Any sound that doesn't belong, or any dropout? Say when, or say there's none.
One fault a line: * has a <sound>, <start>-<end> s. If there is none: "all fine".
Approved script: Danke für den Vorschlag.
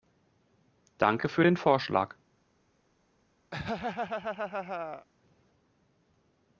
* has a laugh, 3.5-5.1 s